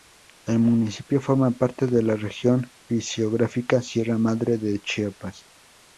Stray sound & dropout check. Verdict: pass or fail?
pass